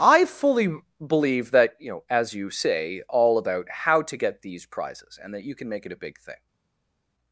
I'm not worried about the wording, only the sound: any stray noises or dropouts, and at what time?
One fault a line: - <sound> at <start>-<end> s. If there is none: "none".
none